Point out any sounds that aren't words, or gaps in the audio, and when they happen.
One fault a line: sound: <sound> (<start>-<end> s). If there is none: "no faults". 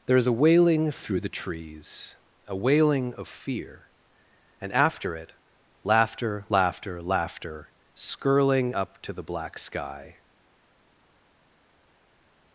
no faults